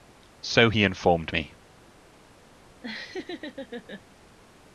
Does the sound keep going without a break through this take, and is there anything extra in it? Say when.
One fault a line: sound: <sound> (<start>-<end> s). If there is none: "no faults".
sound: laugh (2.8-4.0 s)